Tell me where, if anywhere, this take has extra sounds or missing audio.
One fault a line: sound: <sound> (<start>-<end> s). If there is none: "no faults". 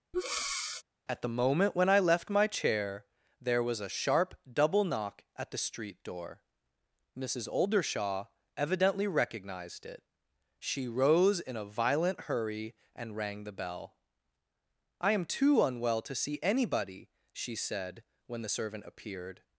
sound: breath (0.1-0.8 s)